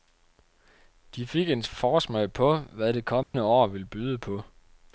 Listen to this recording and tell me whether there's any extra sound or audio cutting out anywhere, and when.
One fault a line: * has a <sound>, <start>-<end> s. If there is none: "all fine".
* has a dropout, 3.2-3.3 s